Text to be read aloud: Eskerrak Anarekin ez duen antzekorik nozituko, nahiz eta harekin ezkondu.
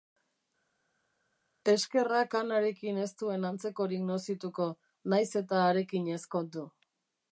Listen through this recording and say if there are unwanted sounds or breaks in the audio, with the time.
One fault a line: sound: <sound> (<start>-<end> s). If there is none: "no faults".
no faults